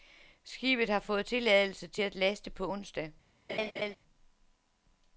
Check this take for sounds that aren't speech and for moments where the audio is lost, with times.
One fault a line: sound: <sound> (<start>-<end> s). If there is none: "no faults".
sound: laugh (3.5-4.0 s)